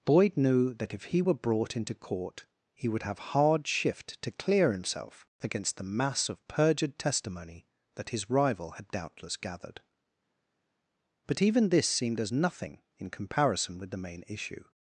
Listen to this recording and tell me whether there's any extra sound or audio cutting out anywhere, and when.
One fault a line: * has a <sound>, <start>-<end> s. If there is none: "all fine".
all fine